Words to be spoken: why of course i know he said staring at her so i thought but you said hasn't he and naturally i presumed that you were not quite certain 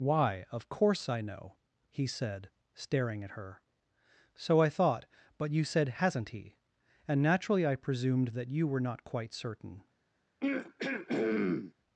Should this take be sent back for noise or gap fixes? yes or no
yes